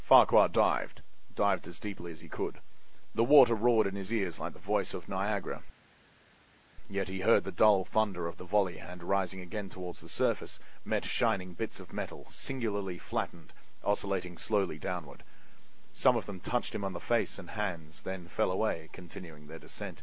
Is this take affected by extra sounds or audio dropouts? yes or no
no